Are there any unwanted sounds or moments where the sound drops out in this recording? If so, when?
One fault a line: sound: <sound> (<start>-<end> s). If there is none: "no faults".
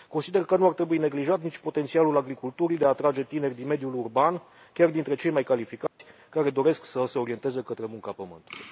sound: dropout (5.9-6.0 s)